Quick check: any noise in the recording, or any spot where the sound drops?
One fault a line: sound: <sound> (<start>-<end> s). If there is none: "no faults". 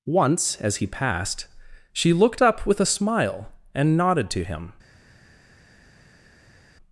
no faults